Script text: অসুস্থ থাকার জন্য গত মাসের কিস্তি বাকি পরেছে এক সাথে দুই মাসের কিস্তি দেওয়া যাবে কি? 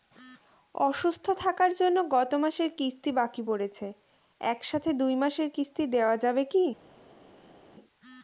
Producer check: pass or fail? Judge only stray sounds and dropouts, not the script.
pass